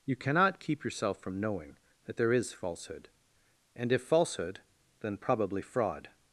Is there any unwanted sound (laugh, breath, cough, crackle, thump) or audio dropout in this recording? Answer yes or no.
no